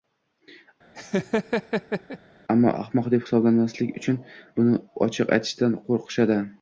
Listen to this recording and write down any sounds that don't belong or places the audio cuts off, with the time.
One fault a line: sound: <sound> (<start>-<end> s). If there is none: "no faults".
sound: laugh (0.9-2.2 s)